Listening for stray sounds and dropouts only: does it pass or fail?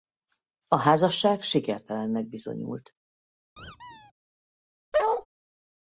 fail